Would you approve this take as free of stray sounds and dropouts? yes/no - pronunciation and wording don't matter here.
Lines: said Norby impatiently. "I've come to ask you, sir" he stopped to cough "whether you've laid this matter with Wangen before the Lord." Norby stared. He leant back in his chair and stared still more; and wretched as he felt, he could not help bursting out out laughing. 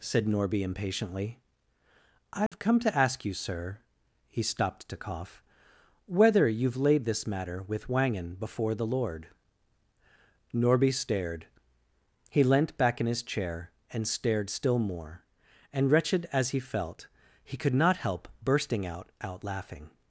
no